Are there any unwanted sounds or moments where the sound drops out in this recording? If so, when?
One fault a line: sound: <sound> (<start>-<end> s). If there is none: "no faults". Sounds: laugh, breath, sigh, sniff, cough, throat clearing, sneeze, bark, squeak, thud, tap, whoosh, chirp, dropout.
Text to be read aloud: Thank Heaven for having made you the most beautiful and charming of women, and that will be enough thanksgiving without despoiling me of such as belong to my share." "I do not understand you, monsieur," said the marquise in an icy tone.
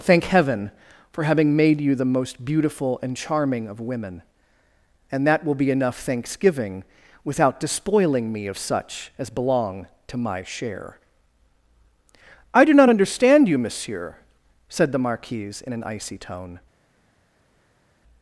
no faults